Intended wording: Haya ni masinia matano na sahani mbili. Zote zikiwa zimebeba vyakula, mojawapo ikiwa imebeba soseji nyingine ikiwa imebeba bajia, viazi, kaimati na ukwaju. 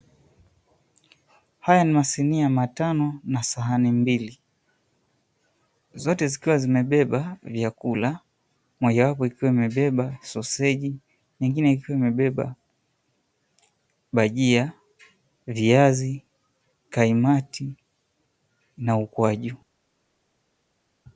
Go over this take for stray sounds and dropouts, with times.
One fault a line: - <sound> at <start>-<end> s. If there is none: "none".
none